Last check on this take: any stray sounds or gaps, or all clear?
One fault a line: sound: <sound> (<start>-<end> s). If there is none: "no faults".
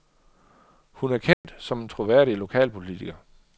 sound: dropout (1.3-1.4 s)